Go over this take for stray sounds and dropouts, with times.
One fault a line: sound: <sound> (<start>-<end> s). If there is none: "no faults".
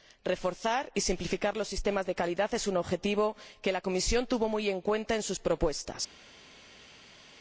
no faults